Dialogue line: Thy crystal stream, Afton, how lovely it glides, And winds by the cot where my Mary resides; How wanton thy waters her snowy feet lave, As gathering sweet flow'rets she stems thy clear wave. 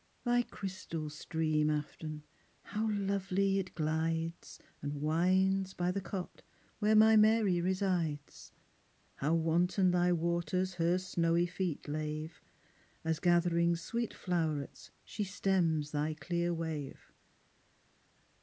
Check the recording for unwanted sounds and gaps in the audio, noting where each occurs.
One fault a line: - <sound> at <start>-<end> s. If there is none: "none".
none